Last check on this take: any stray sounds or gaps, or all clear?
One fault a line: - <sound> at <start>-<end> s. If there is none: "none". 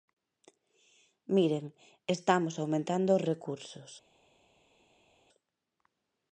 none